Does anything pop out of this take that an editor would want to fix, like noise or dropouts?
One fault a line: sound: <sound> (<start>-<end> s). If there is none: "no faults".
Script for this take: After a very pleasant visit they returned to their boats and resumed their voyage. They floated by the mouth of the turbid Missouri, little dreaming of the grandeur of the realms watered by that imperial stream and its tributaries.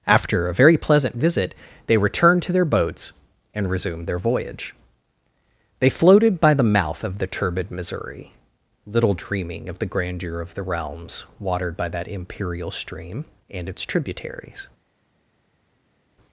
no faults